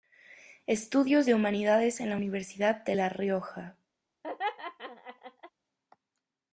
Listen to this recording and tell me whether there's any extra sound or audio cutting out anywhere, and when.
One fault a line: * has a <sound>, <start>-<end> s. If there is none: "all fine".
* has a laugh, 4.2-5.5 s